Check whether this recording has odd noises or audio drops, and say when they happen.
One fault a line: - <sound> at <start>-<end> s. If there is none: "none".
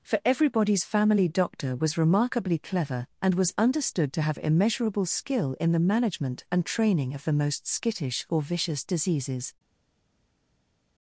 none